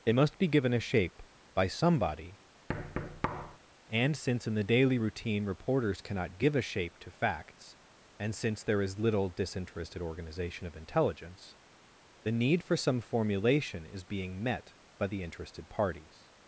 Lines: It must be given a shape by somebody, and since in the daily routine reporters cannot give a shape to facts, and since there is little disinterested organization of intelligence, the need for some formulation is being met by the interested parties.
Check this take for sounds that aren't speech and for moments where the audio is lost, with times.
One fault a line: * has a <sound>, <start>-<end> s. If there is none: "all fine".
* has a thud, 2.7-3.6 s